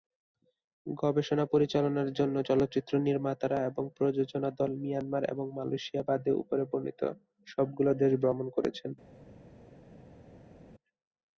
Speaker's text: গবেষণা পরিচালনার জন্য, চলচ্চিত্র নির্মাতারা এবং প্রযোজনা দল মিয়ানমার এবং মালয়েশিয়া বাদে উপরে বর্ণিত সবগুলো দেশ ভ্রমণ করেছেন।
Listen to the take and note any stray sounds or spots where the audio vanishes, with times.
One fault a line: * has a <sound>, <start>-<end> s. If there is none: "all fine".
all fine